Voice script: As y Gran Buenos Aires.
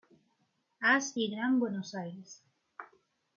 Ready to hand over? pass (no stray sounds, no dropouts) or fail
pass